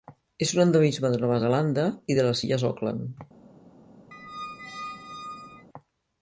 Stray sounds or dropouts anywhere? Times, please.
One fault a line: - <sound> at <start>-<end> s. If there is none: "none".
- squeak at 4.1-5.7 s